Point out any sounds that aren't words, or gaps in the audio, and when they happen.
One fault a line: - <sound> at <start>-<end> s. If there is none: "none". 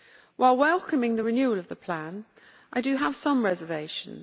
none